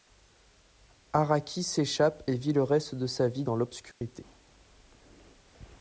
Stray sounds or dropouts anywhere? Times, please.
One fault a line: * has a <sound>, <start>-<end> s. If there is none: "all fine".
* has a dropout, 3.9-4.0 s